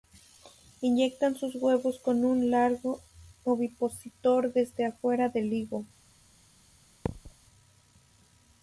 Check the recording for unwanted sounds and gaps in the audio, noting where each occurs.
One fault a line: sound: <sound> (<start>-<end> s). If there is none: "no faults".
sound: thud (7.1-7.3 s)